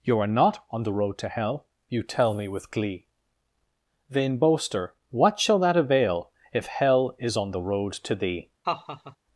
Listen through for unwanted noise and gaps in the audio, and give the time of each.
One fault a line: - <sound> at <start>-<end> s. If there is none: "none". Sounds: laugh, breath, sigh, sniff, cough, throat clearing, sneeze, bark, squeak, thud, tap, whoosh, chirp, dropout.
- laugh at 8.6-9.2 s